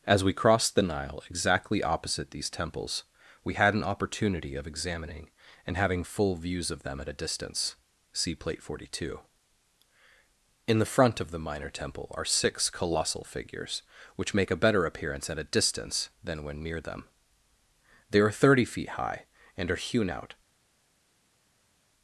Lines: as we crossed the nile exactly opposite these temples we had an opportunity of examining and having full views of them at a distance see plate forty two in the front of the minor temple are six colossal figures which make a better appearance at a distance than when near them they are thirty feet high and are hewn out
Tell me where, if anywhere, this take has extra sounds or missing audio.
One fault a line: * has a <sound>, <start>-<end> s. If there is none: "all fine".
all fine